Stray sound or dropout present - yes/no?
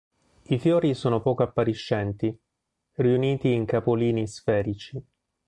no